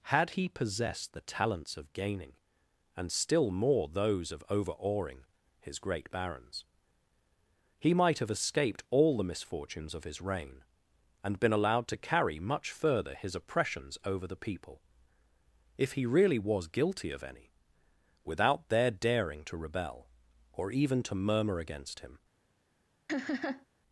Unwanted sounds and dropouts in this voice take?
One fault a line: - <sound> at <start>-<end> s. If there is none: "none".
- laugh at 23.1-23.7 s